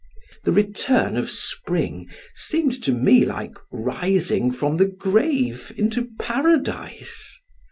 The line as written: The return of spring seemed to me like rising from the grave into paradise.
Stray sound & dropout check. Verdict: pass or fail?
pass